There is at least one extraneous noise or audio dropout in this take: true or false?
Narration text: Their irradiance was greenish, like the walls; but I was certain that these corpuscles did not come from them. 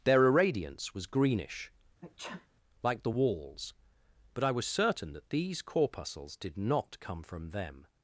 true